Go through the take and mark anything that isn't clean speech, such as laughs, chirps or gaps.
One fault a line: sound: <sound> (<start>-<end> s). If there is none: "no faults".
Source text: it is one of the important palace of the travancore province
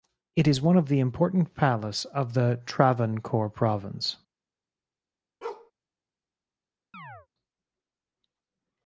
sound: bark (5.4-5.7 s)
sound: chirp (6.9-7.3 s)